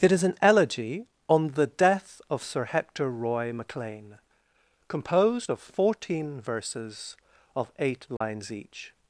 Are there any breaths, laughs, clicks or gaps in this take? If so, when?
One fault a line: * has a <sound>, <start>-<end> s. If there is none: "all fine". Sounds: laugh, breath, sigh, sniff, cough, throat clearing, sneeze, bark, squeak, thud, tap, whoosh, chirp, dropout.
* has a dropout, 8.2-8.2 s